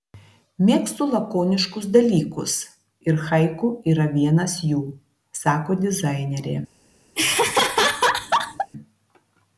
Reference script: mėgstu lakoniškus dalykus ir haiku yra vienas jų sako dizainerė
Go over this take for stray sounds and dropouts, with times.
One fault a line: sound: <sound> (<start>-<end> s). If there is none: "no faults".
sound: laugh (7.2-8.7 s)